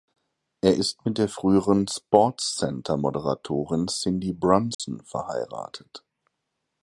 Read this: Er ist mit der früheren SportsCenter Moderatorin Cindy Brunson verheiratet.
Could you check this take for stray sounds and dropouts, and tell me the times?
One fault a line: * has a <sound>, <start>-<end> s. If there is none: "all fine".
* has a dropout, 4.7-4.8 s